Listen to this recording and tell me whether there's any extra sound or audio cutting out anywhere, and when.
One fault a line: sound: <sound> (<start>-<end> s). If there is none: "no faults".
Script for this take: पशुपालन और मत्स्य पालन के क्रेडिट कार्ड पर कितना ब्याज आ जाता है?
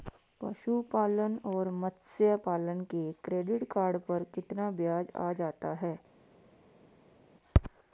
no faults